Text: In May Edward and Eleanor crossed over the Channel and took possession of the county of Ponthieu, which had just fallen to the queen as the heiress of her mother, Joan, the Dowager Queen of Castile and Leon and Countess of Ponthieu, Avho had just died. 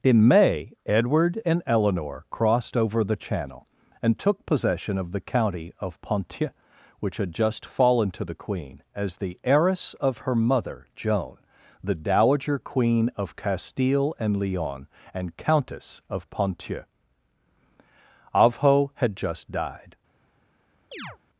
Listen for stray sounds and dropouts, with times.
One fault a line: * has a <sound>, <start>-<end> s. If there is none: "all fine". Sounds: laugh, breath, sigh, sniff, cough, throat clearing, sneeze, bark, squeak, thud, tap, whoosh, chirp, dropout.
* has a chirp, 20.9-21.2 s